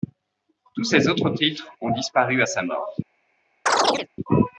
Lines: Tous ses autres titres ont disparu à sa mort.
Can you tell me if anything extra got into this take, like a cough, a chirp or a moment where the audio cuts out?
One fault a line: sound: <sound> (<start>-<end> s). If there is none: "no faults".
sound: chirp (3.7-4.1 s)